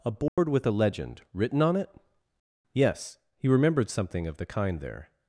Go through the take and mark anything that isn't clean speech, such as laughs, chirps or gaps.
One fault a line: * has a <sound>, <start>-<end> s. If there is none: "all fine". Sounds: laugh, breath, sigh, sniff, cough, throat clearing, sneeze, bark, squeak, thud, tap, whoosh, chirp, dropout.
* has a dropout, 0.3-0.4 s